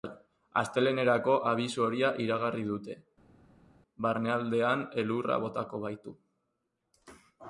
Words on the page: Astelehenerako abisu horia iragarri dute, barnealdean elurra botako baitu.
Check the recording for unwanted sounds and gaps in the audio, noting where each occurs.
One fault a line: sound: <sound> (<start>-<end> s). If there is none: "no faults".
no faults